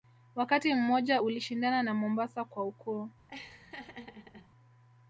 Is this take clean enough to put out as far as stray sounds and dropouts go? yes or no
no